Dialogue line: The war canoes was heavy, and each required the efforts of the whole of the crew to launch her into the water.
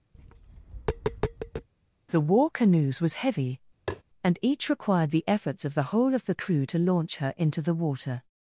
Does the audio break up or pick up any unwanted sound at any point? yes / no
yes